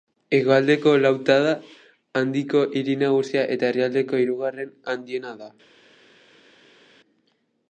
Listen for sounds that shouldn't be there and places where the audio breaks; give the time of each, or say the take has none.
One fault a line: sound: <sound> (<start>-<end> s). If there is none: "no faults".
no faults